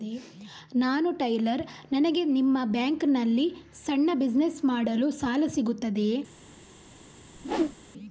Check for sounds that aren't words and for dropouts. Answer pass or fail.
fail